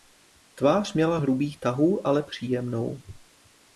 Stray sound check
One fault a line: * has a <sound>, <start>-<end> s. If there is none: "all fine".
all fine